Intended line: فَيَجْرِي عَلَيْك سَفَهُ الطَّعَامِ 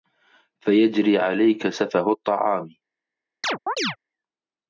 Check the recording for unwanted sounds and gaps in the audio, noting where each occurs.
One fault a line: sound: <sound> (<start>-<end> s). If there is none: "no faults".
sound: chirp (3.4-4.0 s)